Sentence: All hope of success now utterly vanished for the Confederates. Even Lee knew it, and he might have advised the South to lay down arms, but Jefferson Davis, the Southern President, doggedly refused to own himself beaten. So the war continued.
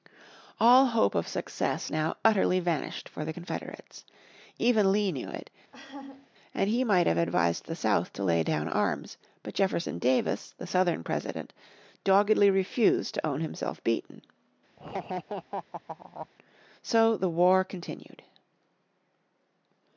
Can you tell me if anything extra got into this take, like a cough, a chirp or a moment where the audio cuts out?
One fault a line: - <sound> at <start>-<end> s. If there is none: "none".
- laugh at 5.7-6.3 s
- laugh at 14.8-16.3 s